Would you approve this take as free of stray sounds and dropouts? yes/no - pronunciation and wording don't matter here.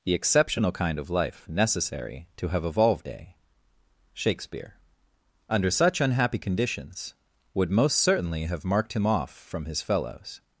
yes